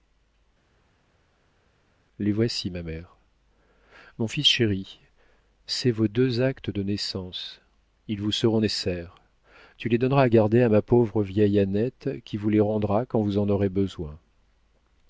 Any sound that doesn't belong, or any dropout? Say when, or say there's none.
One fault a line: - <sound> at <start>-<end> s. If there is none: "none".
none